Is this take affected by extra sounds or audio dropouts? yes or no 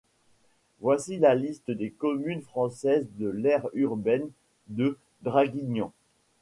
no